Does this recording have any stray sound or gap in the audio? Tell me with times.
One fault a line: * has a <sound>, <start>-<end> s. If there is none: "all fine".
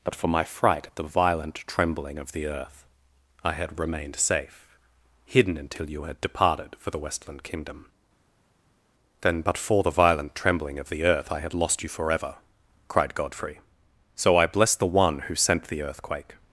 all fine